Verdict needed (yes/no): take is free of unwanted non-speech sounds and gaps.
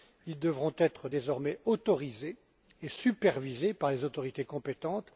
yes